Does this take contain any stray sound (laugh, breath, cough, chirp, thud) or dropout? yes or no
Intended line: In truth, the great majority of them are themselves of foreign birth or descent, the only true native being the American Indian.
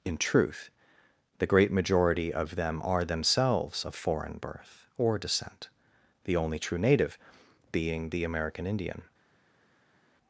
no